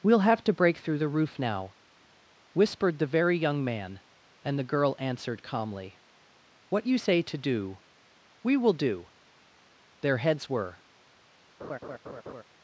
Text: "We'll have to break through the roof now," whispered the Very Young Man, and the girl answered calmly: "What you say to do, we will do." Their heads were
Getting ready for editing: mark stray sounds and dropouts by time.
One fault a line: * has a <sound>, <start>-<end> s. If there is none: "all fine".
* has a laugh, 11.6-12.4 s